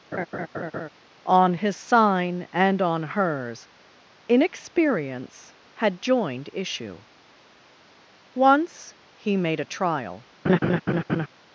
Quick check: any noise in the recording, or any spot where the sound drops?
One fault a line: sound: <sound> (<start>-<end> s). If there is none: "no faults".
sound: laugh (0.1-0.9 s)
sound: laugh (10.4-11.3 s)